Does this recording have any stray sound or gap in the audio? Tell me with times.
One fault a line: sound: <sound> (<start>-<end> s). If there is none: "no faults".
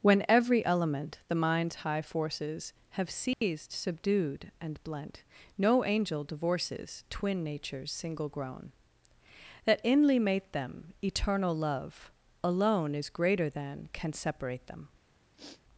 sound: dropout (3.3-3.4 s)
sound: sniff (15.3-15.6 s)